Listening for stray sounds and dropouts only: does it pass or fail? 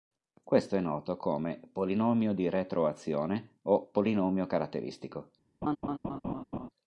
fail